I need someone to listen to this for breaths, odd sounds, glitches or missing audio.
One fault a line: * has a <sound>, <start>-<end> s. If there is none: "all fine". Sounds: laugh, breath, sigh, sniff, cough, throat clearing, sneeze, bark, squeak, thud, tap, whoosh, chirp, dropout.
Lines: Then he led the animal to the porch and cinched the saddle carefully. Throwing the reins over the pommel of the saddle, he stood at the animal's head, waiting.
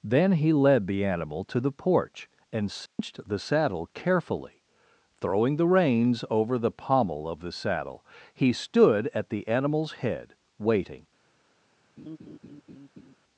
* has a dropout, 2.9-3.0 s
* has a laugh, 12.0-13.2 s